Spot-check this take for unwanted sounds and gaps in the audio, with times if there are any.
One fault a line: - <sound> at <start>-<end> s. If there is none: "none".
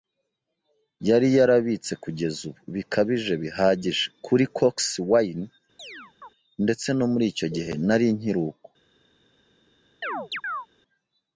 - chirp at 5.8-6.3 s
- chirp at 10.0-10.7 s